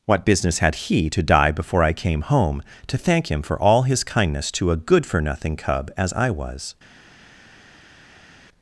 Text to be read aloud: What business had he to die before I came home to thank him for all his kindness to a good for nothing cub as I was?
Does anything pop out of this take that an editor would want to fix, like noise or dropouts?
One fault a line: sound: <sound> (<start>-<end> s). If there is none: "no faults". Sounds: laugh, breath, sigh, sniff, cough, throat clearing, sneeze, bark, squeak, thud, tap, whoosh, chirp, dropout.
no faults